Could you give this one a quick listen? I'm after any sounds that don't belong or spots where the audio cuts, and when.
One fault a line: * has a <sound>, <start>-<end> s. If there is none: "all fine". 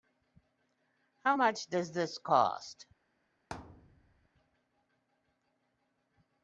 * has a thud, 3.5-4.3 s